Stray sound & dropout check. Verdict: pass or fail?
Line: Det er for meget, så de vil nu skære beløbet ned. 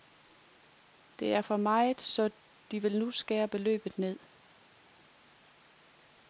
pass